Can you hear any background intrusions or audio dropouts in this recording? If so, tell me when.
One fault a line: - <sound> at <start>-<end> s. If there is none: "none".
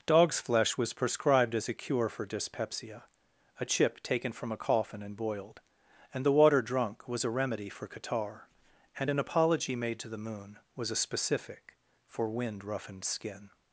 none